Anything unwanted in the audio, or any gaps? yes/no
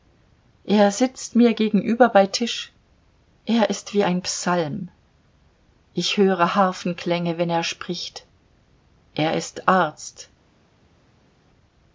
no